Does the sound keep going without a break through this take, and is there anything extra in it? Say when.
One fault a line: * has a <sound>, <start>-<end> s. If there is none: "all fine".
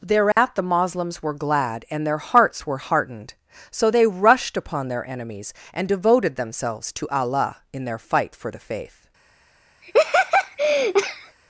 * has a dropout, 0.3-0.4 s
* has a laugh, 9.8-11.4 s